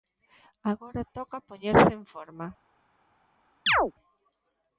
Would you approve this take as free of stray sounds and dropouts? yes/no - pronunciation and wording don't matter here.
no